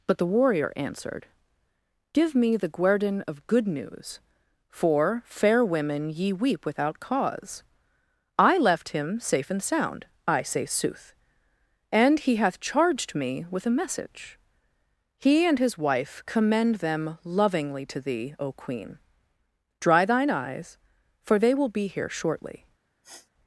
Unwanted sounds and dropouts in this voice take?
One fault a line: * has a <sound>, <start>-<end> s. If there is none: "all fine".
* has a sniff, 23.0-23.3 s